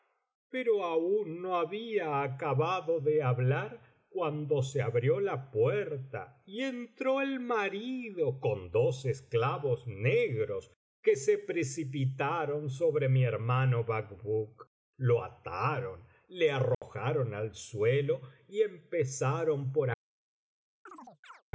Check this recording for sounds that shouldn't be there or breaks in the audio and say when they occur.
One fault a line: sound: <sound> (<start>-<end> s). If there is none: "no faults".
sound: dropout (16.7-16.8 s)
sound: chirp (20.9-21.4 s)